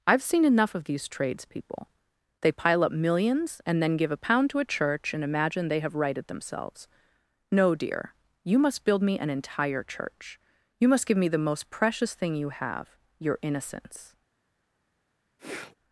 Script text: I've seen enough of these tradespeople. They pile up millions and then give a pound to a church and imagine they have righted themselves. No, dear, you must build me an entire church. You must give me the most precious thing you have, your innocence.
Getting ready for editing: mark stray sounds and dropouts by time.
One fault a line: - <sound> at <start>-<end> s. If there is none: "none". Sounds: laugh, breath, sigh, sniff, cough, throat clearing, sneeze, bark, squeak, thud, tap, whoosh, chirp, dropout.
- sniff at 15.4-15.7 s